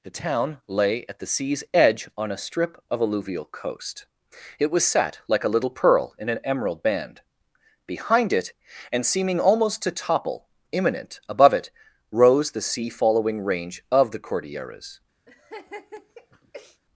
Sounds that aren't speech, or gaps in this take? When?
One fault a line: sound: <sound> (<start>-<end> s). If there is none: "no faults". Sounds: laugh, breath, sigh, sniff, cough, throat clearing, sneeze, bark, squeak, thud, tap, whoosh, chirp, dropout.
sound: laugh (15.3-16.8 s)